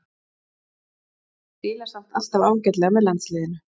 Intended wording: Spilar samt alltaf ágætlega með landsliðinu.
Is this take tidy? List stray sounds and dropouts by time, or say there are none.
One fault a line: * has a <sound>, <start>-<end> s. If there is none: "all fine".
all fine